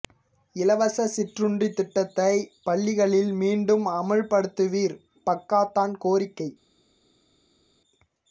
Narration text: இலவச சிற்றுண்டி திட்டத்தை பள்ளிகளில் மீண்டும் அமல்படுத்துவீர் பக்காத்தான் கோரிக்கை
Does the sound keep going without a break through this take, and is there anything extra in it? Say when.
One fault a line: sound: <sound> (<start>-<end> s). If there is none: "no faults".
no faults